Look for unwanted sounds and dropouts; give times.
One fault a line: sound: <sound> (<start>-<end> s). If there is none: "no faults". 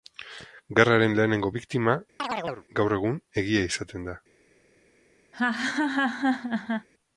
sound: chirp (2.2-2.7 s)
sound: laugh (5.3-6.9 s)